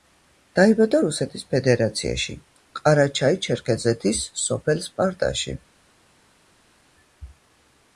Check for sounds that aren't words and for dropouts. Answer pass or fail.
pass